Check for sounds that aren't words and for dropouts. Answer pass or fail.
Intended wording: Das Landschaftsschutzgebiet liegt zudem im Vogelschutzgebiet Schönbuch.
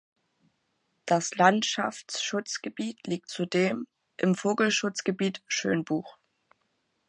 pass